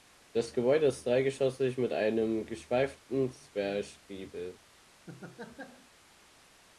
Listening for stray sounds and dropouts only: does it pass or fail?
fail